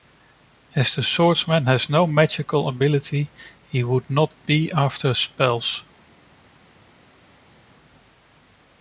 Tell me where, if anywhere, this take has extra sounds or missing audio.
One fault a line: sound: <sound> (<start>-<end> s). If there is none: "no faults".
no faults